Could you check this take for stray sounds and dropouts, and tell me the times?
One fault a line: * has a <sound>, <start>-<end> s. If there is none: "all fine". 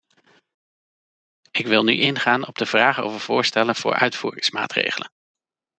all fine